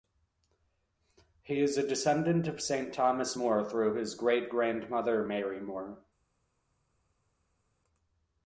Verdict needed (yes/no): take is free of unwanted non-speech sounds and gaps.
yes